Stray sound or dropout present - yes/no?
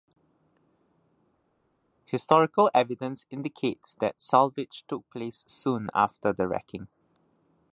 no